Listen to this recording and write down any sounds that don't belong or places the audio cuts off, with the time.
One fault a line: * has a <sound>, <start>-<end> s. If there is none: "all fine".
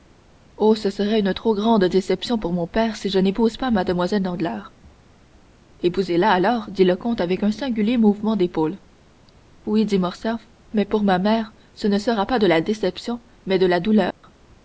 * has a dropout, 14.1-14.2 s